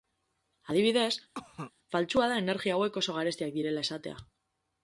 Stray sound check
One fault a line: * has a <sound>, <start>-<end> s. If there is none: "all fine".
* has a cough, 1.3-1.7 s